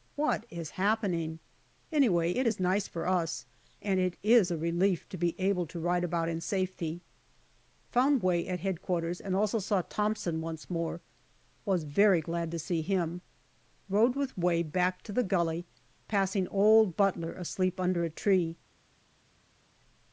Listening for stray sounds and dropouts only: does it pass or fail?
pass